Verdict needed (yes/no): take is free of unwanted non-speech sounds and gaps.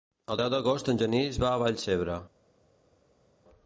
yes